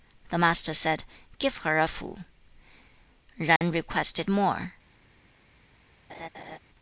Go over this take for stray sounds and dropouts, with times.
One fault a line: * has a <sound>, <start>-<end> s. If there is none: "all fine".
* has a dropout, 3.6-3.6 s
* has a laugh, 6.1-6.6 s